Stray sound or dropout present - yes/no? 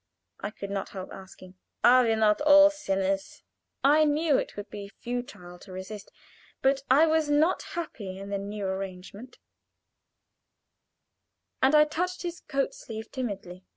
no